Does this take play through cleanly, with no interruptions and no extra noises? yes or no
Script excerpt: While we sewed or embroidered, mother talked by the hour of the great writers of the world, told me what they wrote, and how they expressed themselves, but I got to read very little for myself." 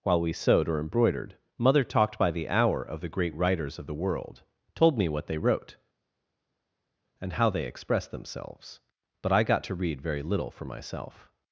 yes